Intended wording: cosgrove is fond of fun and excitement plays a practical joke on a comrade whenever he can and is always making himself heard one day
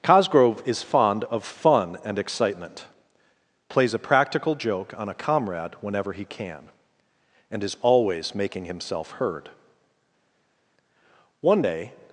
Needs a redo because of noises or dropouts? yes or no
no